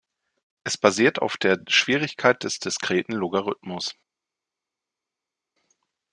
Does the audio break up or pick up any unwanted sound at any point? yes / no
no